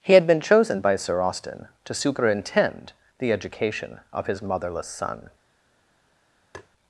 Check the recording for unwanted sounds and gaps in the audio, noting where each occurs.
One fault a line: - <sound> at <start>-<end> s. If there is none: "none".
- tap at 6.5-6.7 s